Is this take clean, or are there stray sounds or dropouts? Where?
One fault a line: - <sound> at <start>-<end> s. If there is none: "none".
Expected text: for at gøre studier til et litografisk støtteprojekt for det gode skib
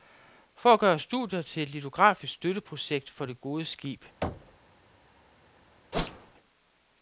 - thud at 4.2-4.6 s
- whoosh at 5.9-6.3 s